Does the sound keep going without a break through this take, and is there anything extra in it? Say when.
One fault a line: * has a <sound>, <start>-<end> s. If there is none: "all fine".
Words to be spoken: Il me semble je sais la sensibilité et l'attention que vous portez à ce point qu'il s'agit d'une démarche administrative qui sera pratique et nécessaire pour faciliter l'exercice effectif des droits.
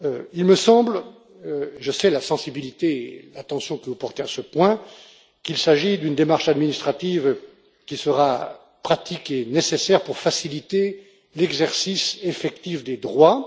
all fine